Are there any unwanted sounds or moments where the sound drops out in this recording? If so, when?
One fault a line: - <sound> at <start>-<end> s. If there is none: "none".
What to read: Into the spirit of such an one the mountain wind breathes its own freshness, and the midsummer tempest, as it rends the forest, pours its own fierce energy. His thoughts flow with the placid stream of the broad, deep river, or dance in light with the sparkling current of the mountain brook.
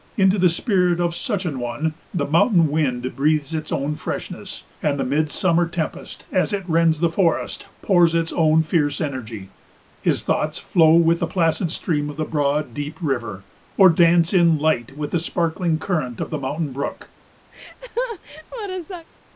- laugh at 17.5-19.1 s